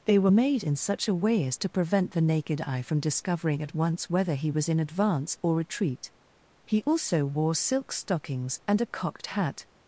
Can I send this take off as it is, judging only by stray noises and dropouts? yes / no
yes